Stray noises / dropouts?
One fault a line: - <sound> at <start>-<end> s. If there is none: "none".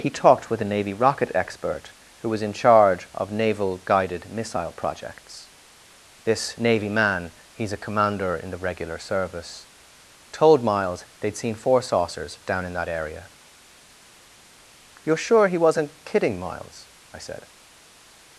none